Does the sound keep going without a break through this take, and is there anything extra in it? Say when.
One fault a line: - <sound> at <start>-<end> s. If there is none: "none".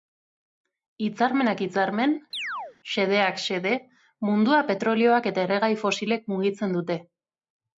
- chirp at 2.3-2.8 s